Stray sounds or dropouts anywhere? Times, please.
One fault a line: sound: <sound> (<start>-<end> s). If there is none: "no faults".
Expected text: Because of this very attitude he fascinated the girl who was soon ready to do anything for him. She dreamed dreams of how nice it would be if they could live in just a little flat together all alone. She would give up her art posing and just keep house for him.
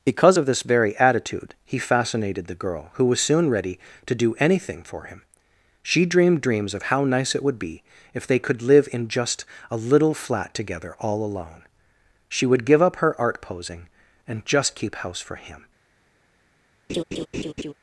sound: laugh (16.9-17.7 s)